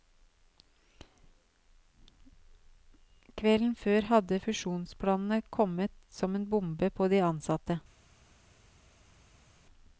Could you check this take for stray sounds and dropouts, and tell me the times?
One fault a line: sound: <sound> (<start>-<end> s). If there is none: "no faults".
no faults